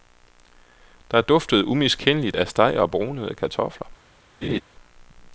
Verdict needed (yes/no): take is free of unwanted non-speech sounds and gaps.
no